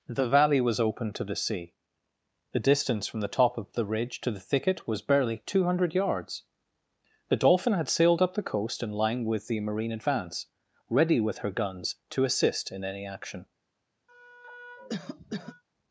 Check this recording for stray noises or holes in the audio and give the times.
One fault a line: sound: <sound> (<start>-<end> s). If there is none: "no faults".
sound: cough (14.1-15.6 s)